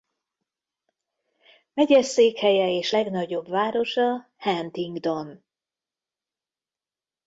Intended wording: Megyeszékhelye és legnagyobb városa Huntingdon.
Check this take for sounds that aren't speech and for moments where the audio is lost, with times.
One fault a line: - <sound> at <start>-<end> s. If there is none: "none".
none